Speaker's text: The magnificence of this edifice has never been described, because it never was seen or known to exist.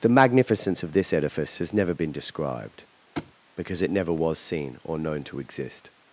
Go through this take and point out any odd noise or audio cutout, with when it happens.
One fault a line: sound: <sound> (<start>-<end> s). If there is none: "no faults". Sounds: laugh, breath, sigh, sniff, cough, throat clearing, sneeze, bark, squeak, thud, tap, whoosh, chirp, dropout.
sound: thud (3.2-3.3 s)